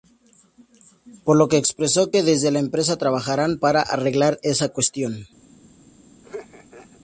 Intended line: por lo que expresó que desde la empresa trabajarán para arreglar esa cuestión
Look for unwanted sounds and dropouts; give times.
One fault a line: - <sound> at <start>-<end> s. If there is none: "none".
- laugh at 6.2-7.0 s